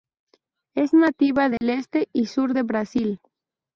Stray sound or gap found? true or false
true